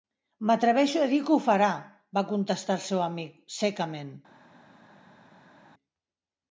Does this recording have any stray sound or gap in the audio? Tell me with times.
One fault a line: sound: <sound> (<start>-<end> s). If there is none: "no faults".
no faults